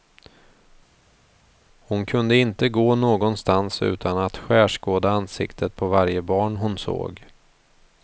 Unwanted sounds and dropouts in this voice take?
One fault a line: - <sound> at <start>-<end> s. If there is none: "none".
none